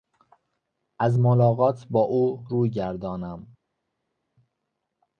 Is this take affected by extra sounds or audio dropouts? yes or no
no